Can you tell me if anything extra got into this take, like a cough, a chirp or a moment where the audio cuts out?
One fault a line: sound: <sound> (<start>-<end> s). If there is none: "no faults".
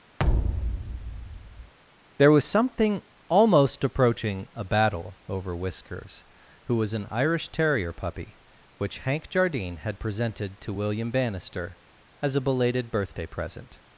sound: thud (0.2-1.7 s)